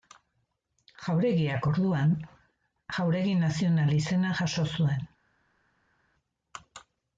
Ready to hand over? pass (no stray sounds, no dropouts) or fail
pass